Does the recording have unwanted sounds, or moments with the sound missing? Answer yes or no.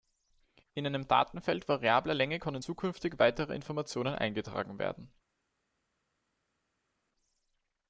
no